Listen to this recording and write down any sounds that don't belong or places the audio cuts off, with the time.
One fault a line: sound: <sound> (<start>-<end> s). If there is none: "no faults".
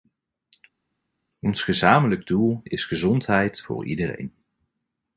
no faults